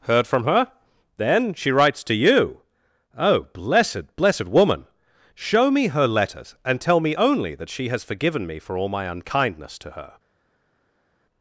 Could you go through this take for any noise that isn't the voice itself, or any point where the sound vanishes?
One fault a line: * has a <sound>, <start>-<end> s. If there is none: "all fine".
all fine